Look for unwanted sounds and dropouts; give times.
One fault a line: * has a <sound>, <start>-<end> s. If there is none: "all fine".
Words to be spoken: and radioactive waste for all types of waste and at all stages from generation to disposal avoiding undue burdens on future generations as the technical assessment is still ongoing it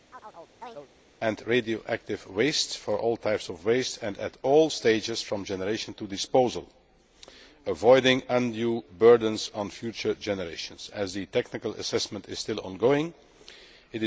* has a chirp, 0.1-0.9 s